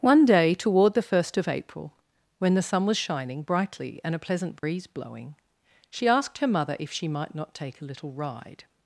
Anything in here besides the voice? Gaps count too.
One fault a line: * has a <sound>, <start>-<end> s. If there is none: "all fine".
* has a dropout, 4.6-4.6 s